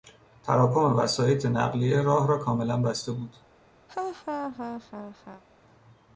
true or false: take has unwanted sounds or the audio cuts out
true